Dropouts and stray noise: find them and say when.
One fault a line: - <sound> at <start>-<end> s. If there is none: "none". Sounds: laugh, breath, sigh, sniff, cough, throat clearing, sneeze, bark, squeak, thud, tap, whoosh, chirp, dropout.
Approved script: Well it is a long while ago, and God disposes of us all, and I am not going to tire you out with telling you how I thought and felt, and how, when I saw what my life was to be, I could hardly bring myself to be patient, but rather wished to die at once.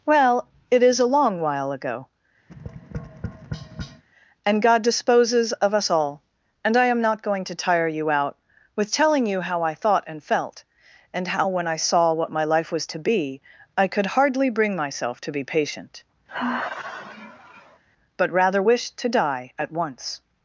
- tap at 2.5-4.0 s
- sigh at 16.3-17.8 s